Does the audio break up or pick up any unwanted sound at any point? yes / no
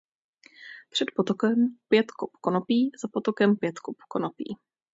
no